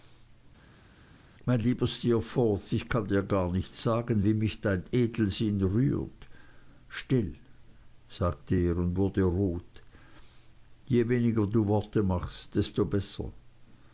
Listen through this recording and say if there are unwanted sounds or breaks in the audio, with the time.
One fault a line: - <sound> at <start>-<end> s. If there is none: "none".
none